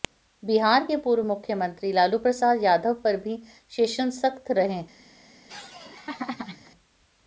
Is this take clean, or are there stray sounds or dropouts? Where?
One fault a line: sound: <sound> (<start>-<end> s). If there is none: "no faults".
sound: laugh (5.5-6.7 s)